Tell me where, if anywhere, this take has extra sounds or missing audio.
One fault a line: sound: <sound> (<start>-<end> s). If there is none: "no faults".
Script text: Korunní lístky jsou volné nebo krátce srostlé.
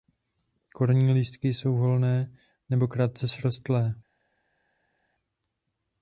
no faults